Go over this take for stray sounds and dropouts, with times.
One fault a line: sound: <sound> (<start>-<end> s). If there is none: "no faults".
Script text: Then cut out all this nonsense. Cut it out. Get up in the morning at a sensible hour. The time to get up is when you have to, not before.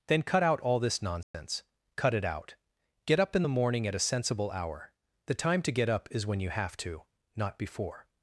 sound: dropout (1.2-1.3 s)